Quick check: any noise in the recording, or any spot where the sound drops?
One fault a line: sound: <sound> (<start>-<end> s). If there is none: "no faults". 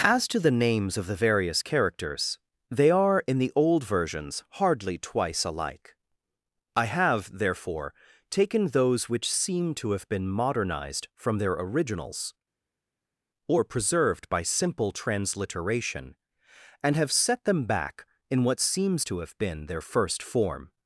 no faults